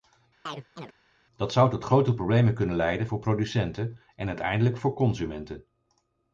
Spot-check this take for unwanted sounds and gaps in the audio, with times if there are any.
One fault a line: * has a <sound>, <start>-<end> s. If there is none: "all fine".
* has a chirp, 0.5-1.0 s